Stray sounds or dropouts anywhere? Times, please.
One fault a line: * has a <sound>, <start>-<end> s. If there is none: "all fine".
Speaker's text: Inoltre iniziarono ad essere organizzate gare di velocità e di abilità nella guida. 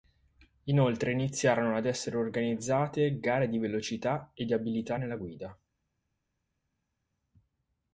all fine